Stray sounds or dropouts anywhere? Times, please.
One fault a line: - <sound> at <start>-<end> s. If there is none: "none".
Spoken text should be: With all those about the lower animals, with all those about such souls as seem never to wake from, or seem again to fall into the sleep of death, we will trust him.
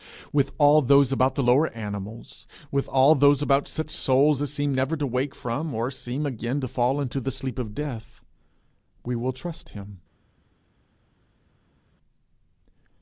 none